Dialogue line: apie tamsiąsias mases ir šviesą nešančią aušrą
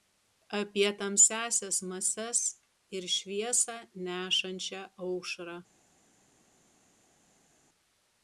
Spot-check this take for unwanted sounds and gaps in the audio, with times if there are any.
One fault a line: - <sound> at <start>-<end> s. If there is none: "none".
none